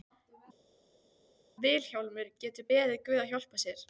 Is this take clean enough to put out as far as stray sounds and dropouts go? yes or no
yes